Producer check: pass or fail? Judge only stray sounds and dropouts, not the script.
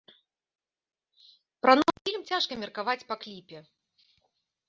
pass